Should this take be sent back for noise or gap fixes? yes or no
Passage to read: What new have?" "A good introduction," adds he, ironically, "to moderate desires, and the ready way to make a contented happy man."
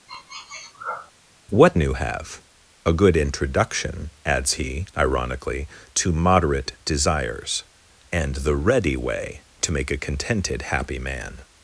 yes